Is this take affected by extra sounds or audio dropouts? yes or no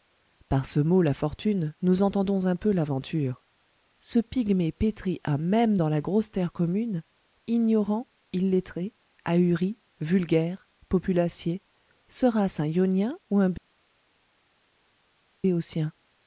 no